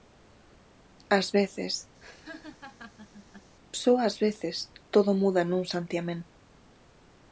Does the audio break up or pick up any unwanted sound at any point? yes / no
yes